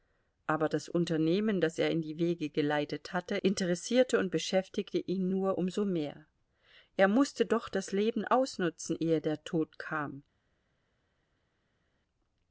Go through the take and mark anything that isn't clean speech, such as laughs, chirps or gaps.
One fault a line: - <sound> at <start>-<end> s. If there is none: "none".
none